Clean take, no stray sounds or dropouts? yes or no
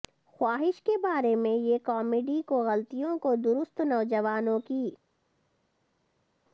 yes